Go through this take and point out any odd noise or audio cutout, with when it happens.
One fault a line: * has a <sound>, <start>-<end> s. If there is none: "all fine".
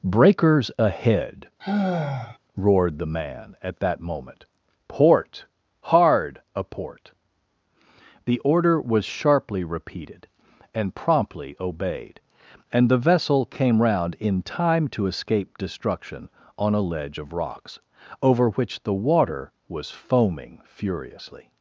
* has a sigh, 1.6-2.4 s